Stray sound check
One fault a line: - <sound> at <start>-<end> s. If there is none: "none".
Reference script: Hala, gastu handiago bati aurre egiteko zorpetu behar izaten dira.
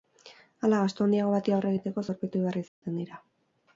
- dropout at 2.7-2.8 s